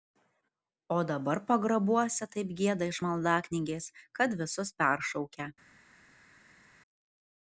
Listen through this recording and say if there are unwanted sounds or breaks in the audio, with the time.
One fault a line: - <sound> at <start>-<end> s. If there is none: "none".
none